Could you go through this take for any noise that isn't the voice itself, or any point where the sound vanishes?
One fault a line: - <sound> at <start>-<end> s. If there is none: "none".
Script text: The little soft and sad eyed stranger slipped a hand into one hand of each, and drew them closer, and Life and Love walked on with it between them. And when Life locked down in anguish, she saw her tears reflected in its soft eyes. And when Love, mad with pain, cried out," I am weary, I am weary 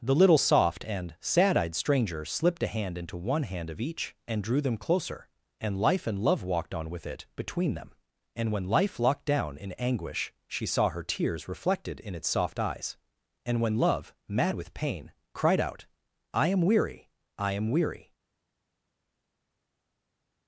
none